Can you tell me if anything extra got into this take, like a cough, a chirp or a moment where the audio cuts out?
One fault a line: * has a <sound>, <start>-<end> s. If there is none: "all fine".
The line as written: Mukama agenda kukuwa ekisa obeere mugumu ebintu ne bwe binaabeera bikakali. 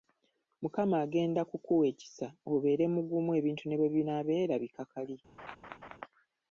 * has a laugh, 5.4-6.0 s